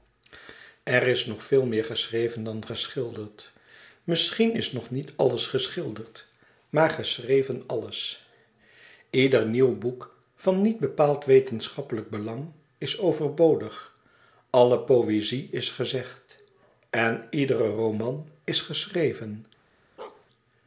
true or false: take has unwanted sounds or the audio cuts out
true